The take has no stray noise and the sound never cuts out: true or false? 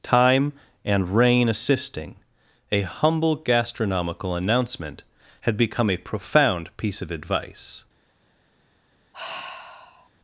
false